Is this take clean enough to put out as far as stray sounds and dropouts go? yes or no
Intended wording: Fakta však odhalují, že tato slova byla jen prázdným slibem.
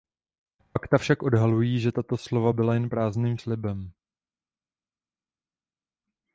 yes